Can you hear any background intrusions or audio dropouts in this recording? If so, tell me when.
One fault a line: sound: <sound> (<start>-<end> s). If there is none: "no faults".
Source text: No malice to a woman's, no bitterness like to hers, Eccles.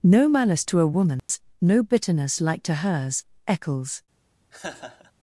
sound: dropout (1.2-1.3 s)
sound: laugh (4.5-5.1 s)